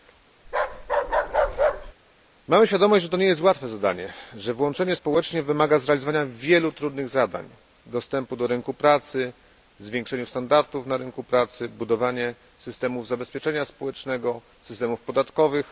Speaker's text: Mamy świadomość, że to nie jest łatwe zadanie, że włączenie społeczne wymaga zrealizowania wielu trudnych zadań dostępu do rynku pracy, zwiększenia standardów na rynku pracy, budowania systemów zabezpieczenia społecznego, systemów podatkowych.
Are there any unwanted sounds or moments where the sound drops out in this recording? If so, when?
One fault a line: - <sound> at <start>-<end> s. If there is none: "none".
- bark at 0.4-1.9 s